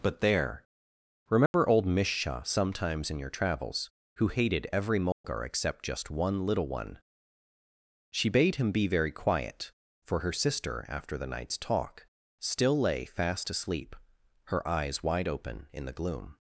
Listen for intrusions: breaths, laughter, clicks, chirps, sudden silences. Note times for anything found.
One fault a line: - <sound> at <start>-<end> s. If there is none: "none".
- dropout at 1.5-1.5 s
- dropout at 5.1-5.2 s